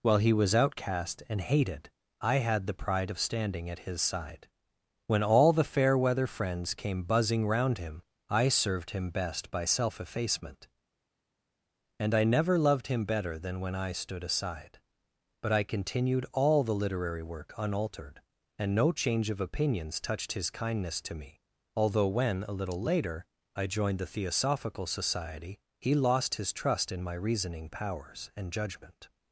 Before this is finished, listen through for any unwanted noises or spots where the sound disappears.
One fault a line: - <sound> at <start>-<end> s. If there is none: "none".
none